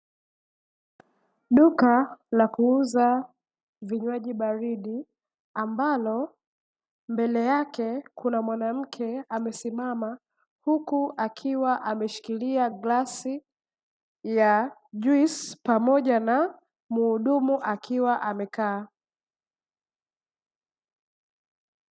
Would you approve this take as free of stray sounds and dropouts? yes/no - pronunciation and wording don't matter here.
yes